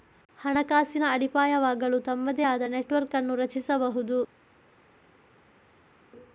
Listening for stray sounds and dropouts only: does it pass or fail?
pass